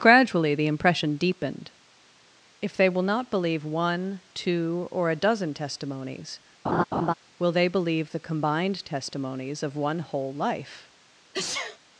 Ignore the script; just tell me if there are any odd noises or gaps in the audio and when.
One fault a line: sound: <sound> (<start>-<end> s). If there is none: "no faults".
sound: laugh (6.6-7.1 s)
sound: sneeze (11.3-11.8 s)